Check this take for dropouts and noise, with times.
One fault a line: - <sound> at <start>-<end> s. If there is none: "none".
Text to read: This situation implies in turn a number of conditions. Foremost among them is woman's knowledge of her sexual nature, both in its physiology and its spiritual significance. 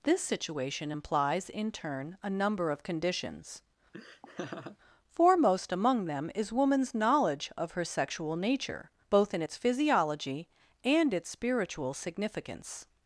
- laugh at 3.9-4.8 s